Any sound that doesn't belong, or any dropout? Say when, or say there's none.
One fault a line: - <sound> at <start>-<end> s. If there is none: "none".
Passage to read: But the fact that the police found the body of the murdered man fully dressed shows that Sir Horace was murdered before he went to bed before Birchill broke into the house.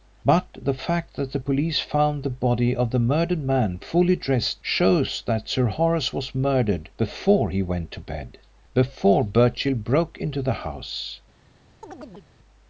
- chirp at 11.8-12.3 s